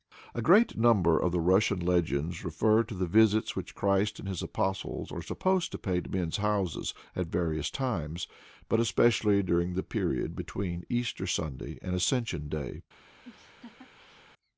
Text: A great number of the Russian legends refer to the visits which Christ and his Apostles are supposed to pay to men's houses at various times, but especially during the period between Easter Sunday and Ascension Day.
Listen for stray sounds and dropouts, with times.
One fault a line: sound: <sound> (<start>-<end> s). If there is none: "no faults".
sound: laugh (13.2-14.3 s)